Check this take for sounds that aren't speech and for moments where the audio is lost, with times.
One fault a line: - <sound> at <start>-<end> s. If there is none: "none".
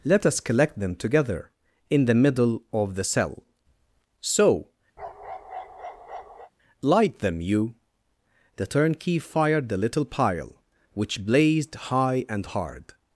- bark at 5.0-6.5 s